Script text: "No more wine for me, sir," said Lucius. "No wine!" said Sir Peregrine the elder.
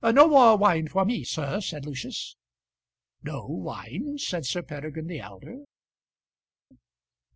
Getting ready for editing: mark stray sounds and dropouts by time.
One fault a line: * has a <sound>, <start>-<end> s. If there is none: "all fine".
all fine